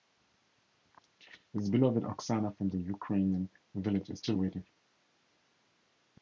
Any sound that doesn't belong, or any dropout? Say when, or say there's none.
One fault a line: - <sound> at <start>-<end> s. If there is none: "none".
none